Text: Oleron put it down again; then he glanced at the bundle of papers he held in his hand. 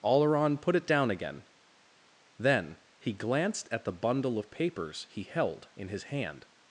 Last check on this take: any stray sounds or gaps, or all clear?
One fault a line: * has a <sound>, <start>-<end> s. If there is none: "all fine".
all fine